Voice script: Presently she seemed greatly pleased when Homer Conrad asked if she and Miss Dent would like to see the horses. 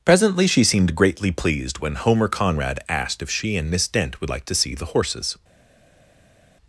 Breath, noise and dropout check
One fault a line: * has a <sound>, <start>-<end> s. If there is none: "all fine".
all fine